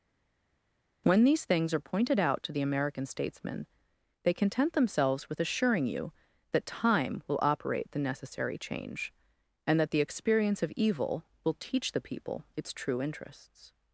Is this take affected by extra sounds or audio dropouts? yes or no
no